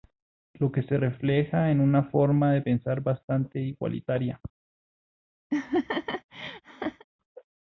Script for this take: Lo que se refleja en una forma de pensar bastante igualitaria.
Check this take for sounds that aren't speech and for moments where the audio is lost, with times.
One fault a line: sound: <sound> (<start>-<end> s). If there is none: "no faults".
sound: laugh (5.5-7.0 s)